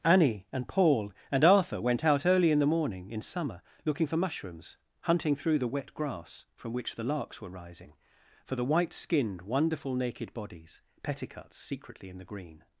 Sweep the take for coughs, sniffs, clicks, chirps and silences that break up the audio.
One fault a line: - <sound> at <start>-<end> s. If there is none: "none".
none